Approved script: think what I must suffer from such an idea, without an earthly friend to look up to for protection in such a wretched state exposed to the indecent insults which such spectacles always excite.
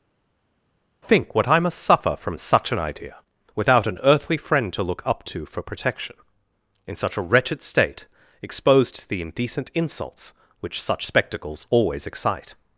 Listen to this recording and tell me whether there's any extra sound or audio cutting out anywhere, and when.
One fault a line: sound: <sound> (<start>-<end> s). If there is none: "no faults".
no faults